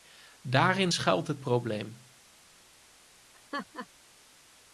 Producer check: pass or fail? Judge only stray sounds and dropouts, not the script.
fail